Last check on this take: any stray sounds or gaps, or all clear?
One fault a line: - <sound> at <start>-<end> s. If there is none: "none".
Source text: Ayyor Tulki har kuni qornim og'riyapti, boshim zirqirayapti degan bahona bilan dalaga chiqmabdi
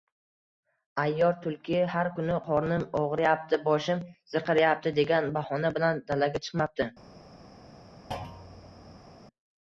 - thud at 8.1-9.2 s